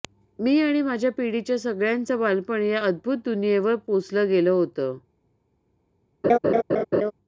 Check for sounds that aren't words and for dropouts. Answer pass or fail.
fail